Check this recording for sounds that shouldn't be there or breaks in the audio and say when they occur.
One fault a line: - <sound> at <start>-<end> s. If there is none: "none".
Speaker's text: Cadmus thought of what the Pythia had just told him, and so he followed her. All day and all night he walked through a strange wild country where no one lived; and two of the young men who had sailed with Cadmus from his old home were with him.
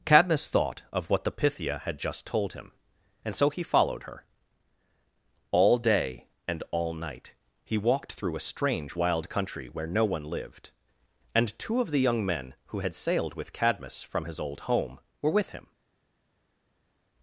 none